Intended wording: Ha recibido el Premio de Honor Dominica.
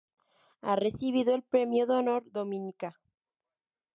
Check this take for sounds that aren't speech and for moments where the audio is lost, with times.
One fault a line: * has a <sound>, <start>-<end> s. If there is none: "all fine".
all fine